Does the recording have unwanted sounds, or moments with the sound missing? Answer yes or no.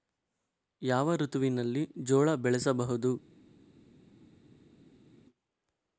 no